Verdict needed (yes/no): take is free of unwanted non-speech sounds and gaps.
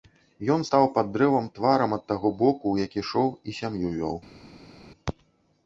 yes